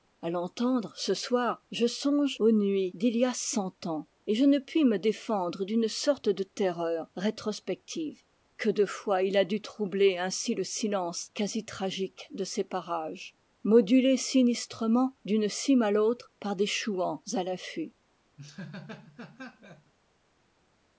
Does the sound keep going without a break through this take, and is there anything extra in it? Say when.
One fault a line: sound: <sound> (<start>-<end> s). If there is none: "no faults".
sound: laugh (18.4-19.9 s)